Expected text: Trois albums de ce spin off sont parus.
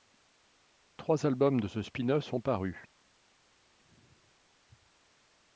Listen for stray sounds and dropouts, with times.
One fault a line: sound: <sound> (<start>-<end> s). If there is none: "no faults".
no faults